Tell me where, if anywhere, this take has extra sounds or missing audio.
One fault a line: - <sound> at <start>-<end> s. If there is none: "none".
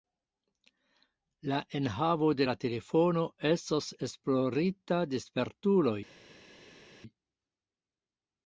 none